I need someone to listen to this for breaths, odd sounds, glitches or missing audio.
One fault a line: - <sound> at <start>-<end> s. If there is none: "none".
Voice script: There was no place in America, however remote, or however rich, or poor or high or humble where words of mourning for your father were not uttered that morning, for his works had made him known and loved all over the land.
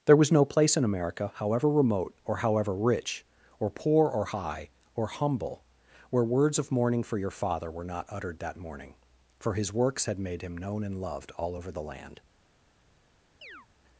- chirp at 13.4-13.7 s